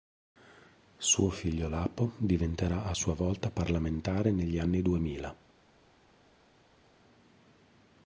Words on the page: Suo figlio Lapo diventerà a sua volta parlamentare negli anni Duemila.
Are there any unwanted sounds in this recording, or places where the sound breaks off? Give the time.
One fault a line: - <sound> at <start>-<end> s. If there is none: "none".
none